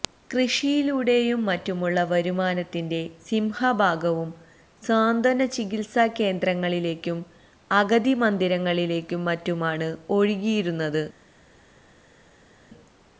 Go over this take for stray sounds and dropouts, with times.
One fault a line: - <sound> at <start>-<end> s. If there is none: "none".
none